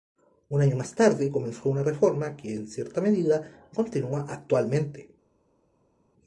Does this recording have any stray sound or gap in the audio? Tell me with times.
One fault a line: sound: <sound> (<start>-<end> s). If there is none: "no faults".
no faults